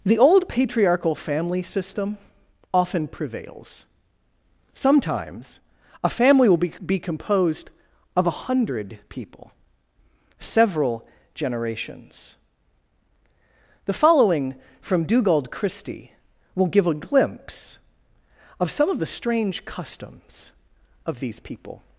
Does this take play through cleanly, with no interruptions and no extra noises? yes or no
yes